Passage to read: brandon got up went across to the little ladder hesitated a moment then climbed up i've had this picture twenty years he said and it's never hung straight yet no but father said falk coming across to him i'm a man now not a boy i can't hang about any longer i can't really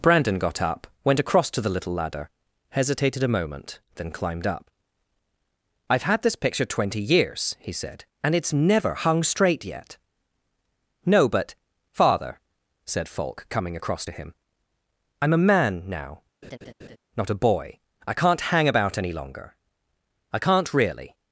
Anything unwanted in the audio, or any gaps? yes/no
yes